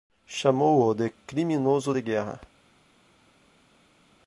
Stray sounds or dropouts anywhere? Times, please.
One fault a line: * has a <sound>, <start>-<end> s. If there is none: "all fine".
all fine